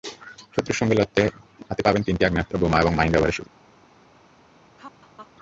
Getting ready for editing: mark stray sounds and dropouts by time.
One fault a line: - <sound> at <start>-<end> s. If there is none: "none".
- laugh at 4.8-5.3 s